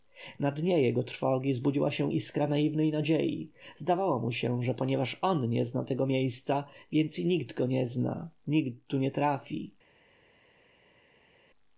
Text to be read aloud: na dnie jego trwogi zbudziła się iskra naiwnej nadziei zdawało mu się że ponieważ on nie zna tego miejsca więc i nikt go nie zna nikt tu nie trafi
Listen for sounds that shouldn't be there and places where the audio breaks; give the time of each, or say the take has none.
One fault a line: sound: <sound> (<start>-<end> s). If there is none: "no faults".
no faults